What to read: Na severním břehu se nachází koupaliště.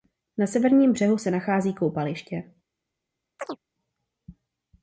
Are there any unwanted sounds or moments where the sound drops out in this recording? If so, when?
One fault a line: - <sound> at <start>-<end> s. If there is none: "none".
- chirp at 3.4-3.6 s